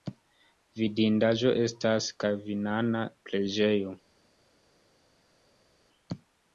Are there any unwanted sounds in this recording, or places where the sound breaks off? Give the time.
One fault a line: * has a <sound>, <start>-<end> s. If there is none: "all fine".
all fine